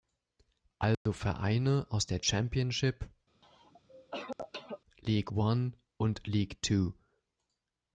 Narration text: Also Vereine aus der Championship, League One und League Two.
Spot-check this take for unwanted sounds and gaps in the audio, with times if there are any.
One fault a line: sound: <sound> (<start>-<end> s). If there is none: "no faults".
sound: dropout (0.9-1.1 s)
sound: cough (3.4-4.8 s)